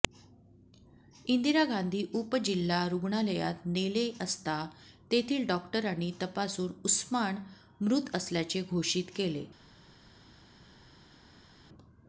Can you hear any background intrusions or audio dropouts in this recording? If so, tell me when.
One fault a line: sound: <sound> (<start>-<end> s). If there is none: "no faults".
no faults